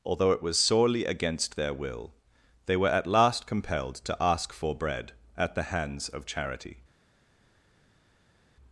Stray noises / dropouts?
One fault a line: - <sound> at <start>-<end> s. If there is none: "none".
none